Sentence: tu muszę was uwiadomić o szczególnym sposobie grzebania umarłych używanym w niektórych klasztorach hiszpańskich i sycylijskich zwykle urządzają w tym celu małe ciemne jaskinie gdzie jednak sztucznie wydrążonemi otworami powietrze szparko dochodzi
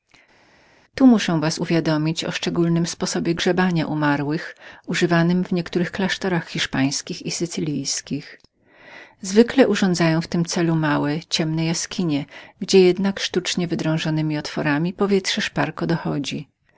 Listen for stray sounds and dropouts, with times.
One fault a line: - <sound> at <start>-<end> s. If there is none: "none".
none